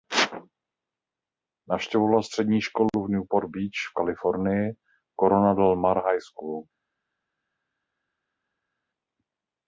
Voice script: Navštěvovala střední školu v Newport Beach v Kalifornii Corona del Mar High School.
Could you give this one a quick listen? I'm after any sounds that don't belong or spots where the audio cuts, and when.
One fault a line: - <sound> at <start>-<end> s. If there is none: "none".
none